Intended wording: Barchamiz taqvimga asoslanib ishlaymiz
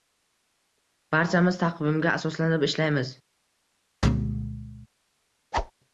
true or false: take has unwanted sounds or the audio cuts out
true